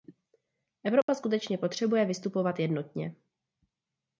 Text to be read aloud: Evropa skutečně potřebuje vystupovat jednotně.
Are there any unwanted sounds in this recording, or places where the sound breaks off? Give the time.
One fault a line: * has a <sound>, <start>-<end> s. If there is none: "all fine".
* has a dropout, 1.0-1.1 s